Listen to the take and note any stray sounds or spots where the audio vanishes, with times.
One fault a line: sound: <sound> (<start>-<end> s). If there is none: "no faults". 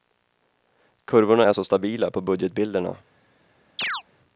sound: chirp (3.8-4.0 s)